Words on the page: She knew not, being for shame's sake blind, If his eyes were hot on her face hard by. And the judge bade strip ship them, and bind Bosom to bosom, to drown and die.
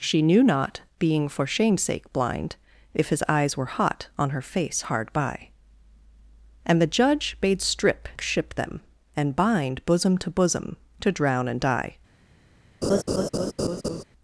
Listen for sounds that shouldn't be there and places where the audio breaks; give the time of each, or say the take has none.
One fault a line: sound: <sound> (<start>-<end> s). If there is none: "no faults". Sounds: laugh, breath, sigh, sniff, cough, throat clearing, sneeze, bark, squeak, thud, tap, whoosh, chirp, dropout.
sound: laugh (12.8-14.0 s)